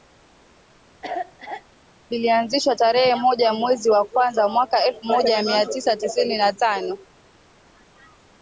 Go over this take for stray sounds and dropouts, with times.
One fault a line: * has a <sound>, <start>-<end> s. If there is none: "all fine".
* has a cough, 1.0-1.6 s